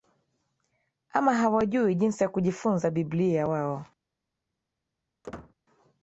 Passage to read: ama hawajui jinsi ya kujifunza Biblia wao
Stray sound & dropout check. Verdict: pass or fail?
fail